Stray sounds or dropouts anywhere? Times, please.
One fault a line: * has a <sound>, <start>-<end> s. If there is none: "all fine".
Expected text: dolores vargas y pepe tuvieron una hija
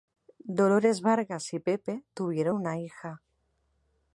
all fine